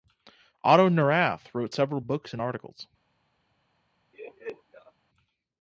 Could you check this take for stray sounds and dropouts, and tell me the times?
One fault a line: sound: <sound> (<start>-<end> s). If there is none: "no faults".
sound: laugh (4.1-4.9 s)